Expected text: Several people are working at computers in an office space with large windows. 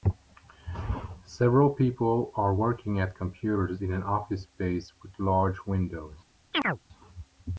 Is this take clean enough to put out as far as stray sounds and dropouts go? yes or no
no